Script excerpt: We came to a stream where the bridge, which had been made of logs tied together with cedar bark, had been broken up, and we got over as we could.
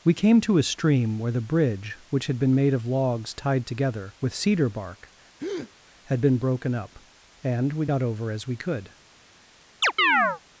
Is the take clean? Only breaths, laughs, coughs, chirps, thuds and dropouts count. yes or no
no